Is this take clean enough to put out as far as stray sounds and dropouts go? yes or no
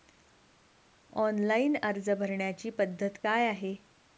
yes